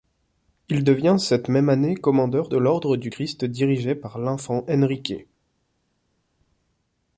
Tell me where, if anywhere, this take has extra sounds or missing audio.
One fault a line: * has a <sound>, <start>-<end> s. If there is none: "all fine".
all fine